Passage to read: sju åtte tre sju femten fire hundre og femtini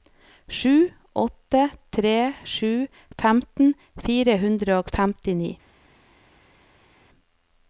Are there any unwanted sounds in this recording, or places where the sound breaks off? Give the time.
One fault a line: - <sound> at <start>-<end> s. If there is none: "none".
none